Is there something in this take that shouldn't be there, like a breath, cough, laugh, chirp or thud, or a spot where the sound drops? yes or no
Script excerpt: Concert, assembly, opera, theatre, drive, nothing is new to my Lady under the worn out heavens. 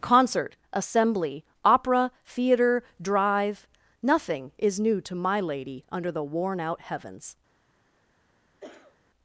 yes